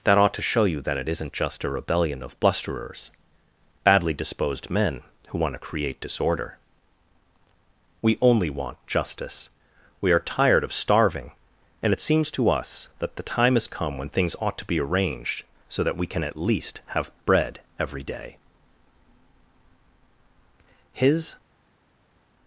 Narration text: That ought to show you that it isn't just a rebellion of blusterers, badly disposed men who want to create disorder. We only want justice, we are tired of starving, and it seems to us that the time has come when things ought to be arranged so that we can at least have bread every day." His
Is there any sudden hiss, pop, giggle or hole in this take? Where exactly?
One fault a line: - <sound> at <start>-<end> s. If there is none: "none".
none